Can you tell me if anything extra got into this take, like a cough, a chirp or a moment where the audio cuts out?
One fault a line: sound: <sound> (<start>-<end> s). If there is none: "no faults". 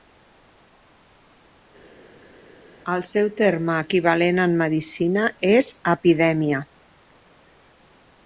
no faults